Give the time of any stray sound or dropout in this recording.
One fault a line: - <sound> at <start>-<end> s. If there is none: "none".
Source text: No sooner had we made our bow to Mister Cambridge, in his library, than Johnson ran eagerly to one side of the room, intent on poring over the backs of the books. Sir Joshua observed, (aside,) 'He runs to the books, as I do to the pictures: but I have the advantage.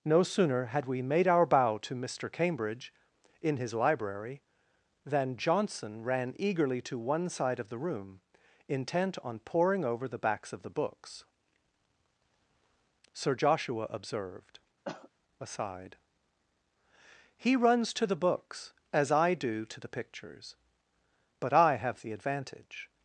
- cough at 14.8-15.1 s